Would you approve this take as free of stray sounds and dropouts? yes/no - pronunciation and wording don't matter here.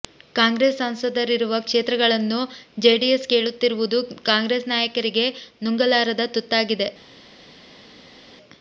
yes